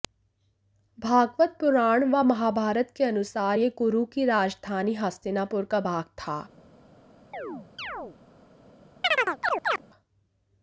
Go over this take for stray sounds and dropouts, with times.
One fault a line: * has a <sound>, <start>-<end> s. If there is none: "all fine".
* has a chirp, 7.3-8.2 s
* has a chirp, 9.0-9.8 s